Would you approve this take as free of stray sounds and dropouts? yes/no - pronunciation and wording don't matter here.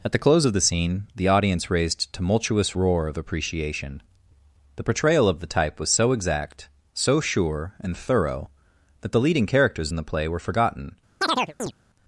no